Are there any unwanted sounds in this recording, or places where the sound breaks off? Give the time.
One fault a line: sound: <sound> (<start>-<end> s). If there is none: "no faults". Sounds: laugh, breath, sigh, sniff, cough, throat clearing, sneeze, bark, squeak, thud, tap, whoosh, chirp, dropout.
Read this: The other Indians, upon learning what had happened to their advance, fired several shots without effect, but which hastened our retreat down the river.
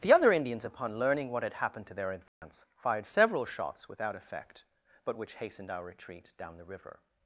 sound: dropout (2.3-2.4 s)